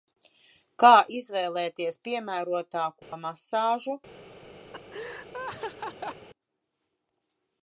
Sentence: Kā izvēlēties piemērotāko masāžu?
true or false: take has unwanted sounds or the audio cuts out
true